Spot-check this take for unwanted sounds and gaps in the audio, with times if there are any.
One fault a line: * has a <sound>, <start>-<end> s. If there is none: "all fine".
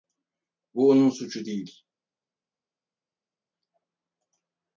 all fine